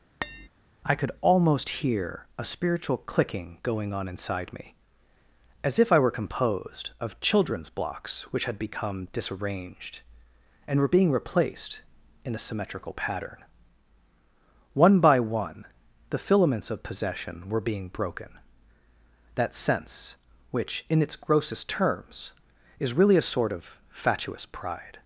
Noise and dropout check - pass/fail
fail